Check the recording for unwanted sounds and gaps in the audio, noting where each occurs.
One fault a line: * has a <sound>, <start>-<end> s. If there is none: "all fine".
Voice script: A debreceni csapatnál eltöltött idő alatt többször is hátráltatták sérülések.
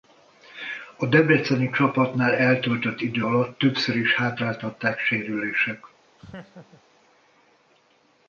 * has a laugh, 6.2-6.8 s